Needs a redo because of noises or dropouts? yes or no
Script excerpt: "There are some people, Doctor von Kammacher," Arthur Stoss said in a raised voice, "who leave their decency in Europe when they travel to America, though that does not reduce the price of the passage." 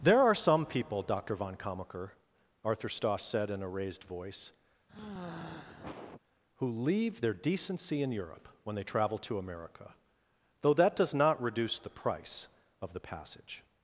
yes